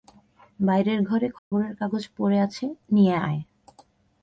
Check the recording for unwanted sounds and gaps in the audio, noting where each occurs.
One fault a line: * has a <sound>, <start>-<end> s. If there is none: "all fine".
* has a dropout, 1.4-1.5 s